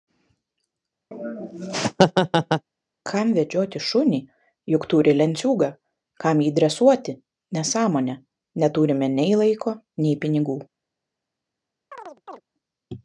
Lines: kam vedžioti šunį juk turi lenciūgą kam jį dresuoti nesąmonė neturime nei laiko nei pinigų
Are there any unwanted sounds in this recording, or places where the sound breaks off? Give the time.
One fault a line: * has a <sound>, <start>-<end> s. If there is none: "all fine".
* has a laugh, 1.1-2.6 s
* has a chirp, 11.9-12.4 s